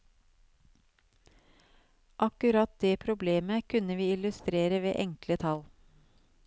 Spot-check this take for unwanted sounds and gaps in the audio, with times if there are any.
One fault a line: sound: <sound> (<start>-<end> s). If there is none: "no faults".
no faults